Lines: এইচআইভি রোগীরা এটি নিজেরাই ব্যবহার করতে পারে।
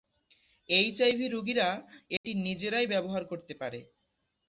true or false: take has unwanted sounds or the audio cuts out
true